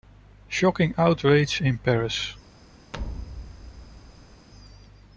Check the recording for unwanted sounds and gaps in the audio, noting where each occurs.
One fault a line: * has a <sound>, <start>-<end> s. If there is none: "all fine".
* has a thud, 2.9-4.5 s